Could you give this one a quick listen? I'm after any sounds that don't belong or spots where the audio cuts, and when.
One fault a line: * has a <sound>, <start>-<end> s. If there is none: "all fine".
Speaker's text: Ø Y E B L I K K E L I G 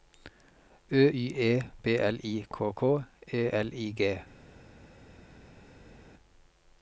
all fine